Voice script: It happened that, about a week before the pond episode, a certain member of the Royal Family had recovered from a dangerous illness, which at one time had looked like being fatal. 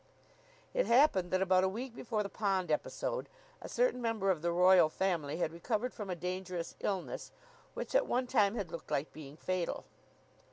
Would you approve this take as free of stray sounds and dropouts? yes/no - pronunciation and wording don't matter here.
yes